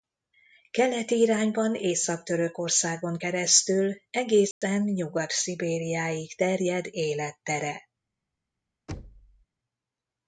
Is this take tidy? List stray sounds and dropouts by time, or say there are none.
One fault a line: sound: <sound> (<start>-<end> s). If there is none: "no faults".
sound: dropout (4.5-4.6 s)
sound: thud (8.9-9.5 s)